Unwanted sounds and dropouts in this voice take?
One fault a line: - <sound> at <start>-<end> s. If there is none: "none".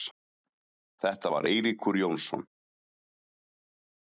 none